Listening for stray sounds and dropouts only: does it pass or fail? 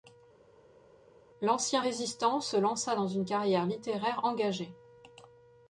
pass